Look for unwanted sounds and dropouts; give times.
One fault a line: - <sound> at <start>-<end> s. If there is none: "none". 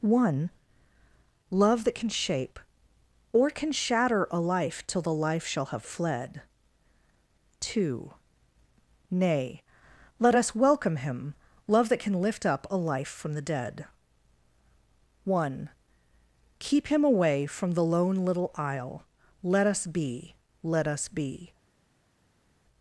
none